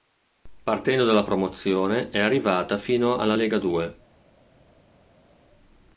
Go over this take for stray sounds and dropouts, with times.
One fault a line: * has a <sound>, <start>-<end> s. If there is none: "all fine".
all fine